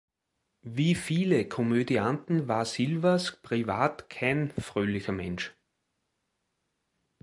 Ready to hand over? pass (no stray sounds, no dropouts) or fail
pass